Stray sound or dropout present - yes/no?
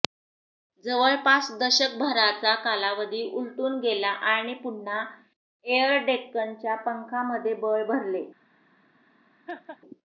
yes